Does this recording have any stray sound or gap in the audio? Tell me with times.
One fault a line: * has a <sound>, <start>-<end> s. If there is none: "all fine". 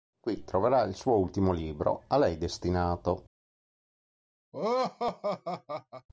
* has a laugh, 4.5-6.1 s